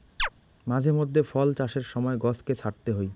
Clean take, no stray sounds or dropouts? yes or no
no